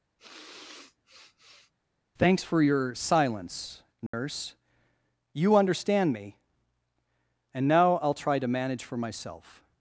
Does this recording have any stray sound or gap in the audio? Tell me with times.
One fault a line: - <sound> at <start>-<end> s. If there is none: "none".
- sniff at 0.2-1.7 s
- dropout at 4.1-4.1 s